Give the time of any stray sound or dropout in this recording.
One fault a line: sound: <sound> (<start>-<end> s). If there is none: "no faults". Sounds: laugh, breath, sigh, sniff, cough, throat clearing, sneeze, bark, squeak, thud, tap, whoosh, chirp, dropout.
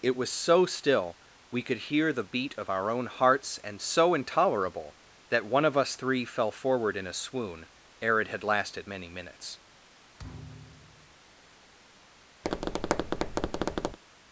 sound: thud (10.2-11.2 s)
sound: tap (12.4-14.0 s)